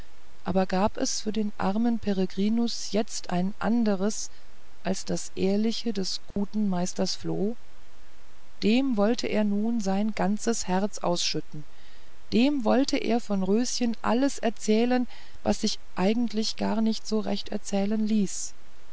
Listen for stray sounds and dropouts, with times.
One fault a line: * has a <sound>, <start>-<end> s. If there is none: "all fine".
* has a dropout, 6.3-6.4 s